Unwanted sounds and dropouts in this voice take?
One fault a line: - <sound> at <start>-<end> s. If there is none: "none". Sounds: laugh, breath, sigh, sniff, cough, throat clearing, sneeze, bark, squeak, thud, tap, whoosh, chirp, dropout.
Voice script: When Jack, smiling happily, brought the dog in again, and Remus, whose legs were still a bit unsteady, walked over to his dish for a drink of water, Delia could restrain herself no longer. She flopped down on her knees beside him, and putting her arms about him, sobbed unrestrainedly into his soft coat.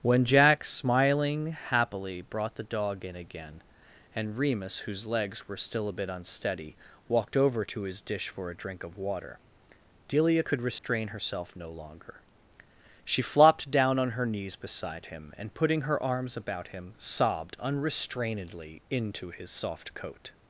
- dropout at 10.8-10.8 s